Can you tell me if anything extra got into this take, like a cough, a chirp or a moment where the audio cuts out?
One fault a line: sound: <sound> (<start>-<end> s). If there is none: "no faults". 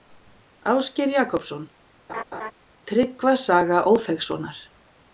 sound: laugh (2.1-2.5 s)